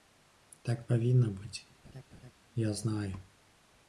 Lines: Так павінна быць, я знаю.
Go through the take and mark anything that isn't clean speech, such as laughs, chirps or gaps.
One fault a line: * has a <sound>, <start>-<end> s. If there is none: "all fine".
* has a laugh, 1.8-2.3 s